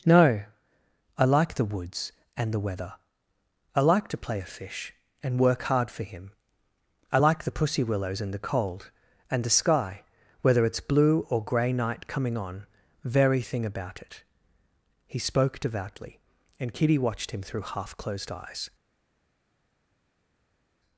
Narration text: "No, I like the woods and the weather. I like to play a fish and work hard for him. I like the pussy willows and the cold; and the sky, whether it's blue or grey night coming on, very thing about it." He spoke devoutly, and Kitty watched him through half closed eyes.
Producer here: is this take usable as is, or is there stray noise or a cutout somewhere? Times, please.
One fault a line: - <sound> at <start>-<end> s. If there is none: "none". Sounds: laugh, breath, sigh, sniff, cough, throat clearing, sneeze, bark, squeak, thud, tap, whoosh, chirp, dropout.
none